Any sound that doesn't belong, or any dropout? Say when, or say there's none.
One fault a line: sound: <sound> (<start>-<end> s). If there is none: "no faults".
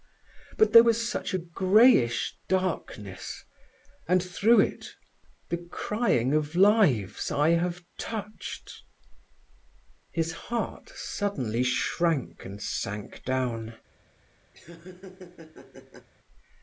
sound: laugh (14.5-16.1 s)